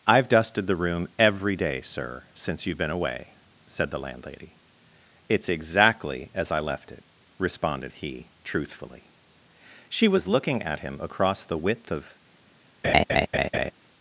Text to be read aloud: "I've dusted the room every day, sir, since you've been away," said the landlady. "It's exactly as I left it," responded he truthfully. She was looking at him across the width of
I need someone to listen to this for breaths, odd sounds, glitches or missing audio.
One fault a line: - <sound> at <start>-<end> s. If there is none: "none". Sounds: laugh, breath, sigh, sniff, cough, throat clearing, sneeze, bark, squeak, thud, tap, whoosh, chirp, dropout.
- laugh at 12.8-13.7 s